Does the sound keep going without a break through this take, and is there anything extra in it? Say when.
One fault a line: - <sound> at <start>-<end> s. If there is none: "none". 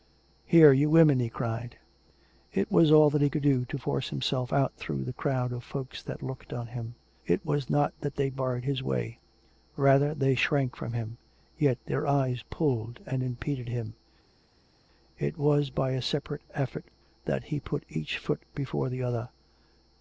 none